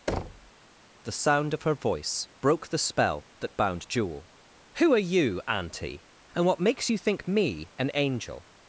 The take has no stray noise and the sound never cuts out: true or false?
false